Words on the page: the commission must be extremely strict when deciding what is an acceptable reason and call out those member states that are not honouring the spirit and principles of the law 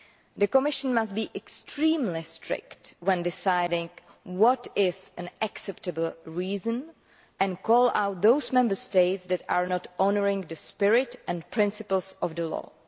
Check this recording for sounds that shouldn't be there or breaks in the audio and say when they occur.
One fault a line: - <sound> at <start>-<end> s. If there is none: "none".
none